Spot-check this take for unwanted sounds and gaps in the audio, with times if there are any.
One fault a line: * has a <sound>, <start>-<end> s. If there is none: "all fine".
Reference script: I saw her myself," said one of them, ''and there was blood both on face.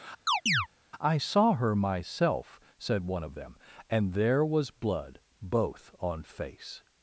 * has a chirp, 0.3-0.7 s